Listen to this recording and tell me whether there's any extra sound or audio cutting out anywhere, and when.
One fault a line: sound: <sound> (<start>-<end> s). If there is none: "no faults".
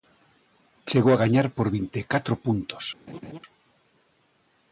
sound: laugh (3.1-3.4 s)